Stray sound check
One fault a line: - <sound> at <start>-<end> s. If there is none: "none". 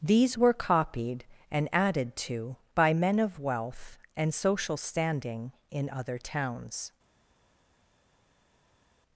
none